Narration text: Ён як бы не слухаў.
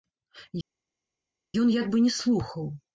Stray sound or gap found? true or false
false